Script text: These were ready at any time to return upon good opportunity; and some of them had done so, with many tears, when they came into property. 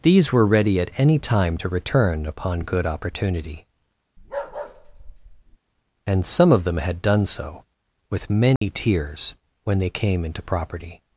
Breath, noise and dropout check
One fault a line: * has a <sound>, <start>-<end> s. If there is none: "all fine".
* has a bark, 4.2-5.6 s
* has a dropout, 8.6-8.6 s